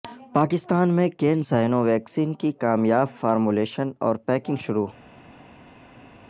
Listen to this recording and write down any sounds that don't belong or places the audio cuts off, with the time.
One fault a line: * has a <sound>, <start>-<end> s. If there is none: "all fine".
all fine